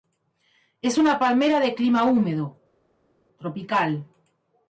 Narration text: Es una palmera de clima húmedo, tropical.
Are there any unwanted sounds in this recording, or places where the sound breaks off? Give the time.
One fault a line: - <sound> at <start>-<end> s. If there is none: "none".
none